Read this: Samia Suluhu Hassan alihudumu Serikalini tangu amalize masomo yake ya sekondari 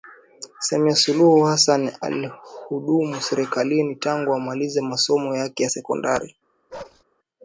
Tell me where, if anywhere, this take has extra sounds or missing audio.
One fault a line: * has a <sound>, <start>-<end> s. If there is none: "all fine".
* has a bark, 6.7-7.0 s